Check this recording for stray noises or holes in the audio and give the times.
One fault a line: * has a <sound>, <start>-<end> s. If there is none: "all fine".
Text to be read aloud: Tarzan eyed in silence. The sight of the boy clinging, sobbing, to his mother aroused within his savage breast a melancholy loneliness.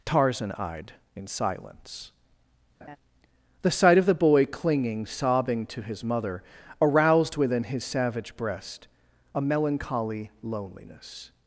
* has a laugh, 2.8-3.0 s